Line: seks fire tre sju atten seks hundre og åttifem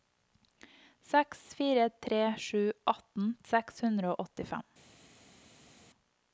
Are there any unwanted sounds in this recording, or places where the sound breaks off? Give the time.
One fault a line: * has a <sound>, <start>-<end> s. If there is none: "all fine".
all fine